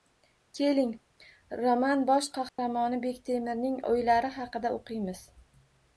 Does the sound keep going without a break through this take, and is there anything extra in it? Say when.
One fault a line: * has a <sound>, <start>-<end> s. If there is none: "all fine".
* has a dropout, 2.5-2.6 s